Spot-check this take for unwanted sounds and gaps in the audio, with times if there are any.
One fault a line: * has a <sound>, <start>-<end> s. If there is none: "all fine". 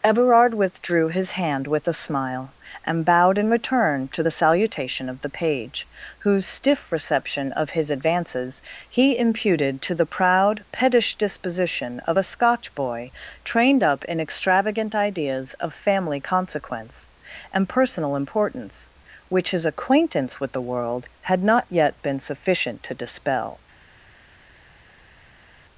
all fine